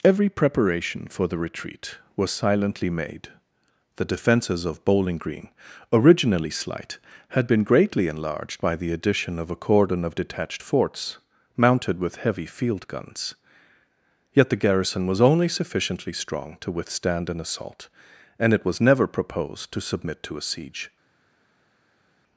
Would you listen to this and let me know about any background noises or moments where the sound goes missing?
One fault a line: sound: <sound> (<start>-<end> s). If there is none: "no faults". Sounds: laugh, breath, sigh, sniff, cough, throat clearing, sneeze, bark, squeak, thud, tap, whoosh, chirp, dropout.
no faults